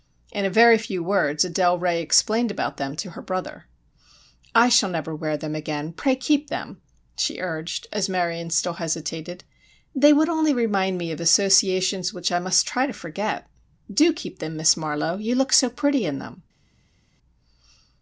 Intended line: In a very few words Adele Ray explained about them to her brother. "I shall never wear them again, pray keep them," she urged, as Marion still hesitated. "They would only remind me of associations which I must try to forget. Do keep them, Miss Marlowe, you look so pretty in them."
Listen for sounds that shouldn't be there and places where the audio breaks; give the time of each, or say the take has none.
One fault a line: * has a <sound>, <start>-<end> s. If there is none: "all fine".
all fine